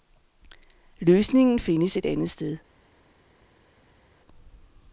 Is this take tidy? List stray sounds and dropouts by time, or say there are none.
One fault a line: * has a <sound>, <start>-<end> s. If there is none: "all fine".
all fine